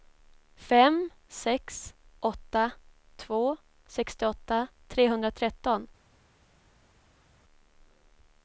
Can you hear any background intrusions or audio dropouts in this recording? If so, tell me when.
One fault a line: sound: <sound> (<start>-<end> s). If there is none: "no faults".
no faults